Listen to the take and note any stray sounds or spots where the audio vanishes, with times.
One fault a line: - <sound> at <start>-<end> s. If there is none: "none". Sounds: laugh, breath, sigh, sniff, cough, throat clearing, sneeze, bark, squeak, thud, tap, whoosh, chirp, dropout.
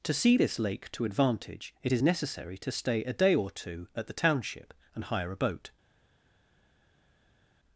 none